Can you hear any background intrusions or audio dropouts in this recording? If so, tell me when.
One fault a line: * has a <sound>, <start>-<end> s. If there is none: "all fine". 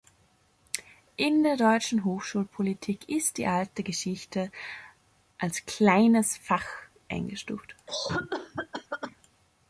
* has a cough, 7.9-9.2 s